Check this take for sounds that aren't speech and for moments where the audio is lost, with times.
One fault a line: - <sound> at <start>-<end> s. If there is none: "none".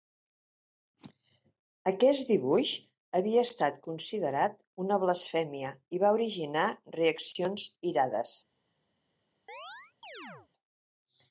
- chirp at 9.5-10.5 s